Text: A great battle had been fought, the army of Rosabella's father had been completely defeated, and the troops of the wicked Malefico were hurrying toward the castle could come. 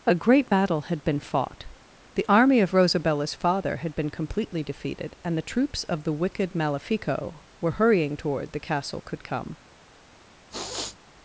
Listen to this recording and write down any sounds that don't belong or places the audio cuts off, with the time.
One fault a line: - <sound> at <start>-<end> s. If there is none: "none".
- sniff at 10.5-11.0 s